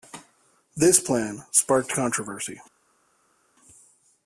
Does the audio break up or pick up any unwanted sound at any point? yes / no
no